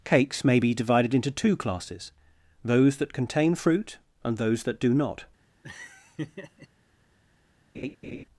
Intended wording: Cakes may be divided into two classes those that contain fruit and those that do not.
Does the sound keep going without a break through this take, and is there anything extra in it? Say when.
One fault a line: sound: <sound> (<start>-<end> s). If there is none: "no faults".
sound: laugh (5.6-6.7 s)
sound: laugh (7.7-8.2 s)